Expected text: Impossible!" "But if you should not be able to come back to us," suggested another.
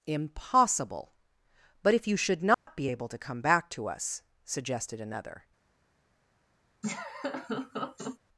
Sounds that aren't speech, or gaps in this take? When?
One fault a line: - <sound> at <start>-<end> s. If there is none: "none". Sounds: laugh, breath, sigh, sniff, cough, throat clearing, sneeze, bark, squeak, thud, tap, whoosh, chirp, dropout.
- dropout at 2.5-2.7 s
- laugh at 6.8-8.2 s